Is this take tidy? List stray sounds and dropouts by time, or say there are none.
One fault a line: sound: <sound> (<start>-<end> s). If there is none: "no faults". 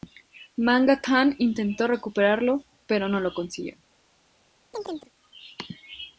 sound: chirp (4.7-5.1 s)